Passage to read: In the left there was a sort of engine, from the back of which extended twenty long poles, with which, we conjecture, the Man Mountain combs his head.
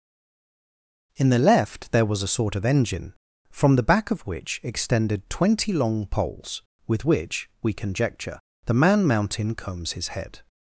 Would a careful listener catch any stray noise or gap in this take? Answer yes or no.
no